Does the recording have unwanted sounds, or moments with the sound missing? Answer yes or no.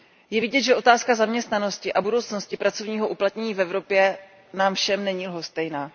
no